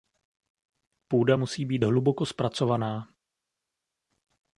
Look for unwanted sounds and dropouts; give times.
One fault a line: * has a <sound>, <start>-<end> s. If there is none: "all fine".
all fine